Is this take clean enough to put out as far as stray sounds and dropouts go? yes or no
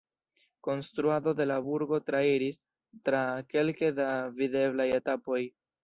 yes